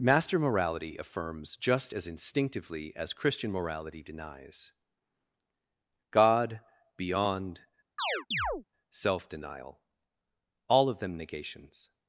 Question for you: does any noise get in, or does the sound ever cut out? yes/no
yes